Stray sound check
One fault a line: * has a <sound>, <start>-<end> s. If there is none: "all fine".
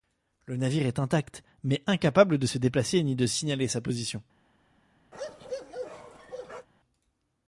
* has a bark, 5.1-6.7 s